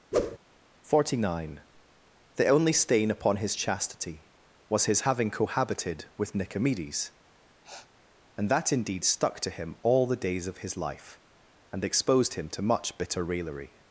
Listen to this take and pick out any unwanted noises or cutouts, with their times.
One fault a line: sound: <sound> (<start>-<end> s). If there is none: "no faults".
sound: whoosh (0.1-0.4 s)
sound: sniff (7.6-7.9 s)